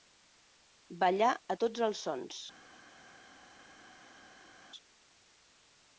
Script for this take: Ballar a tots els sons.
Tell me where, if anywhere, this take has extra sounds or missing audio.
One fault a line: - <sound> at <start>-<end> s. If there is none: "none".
none